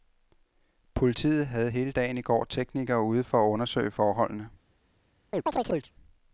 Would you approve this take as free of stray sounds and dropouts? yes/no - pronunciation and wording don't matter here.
no